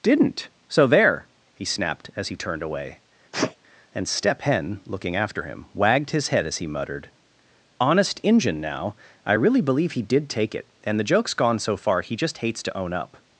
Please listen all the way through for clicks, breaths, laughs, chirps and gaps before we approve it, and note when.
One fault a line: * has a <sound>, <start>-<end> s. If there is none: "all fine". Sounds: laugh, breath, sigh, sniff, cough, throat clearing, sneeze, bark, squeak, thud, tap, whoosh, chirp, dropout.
* has a sneeze, 3.3-3.6 s